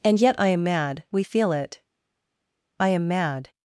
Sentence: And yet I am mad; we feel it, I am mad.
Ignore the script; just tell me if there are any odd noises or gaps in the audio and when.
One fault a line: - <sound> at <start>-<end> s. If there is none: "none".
none